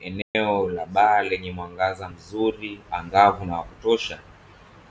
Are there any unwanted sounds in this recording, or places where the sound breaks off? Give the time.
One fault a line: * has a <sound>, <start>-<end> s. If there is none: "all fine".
* has a dropout, 0.2-0.4 s